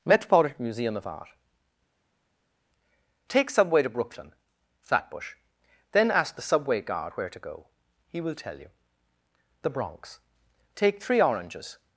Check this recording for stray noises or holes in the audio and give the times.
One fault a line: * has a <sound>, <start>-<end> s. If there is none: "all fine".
all fine